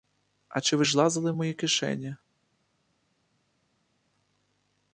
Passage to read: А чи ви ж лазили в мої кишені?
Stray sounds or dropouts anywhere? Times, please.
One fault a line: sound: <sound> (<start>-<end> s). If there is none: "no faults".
no faults